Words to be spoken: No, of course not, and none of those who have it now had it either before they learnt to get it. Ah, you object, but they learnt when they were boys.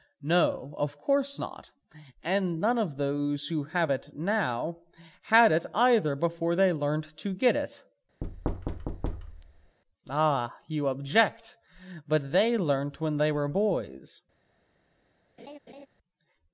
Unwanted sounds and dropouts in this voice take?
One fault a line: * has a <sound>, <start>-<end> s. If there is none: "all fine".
* has a thud, 8.2-9.8 s
* has a laugh, 15.4-15.9 s